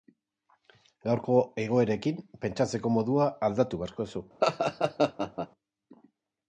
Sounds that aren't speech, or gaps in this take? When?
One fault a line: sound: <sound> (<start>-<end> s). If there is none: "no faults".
sound: laugh (4.4-5.5 s)